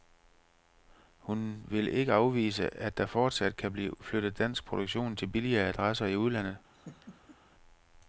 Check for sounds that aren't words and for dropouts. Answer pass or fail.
fail